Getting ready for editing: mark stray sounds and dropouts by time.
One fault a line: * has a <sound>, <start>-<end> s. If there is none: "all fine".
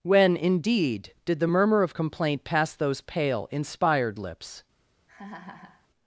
* has a laugh, 5.1-5.9 s